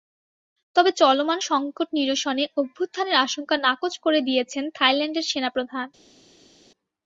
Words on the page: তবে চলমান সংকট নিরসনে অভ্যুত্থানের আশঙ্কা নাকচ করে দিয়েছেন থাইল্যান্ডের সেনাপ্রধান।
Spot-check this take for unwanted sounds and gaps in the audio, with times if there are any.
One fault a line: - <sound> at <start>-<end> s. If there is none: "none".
none